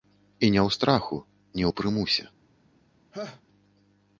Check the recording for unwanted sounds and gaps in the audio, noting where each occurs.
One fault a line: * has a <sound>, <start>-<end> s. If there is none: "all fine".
* has a laugh, 3.1-3.4 s